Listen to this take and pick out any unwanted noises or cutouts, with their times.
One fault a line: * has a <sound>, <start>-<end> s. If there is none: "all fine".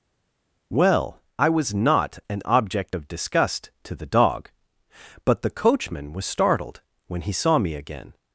all fine